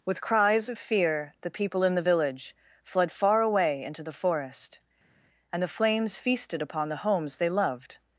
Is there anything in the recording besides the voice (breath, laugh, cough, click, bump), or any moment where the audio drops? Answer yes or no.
no